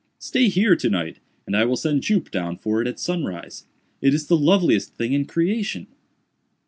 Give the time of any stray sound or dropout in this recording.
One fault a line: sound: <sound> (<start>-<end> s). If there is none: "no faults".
no faults